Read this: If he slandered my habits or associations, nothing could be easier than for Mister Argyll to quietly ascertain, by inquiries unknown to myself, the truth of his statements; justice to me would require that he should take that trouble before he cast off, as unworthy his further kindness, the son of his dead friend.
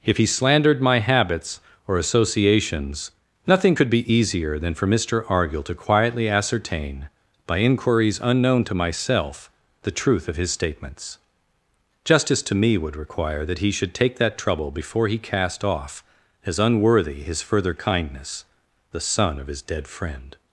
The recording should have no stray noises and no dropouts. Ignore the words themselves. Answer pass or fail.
pass